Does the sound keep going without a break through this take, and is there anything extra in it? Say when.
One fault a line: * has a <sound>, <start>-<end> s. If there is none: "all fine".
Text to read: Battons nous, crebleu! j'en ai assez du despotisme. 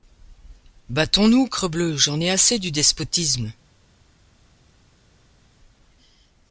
all fine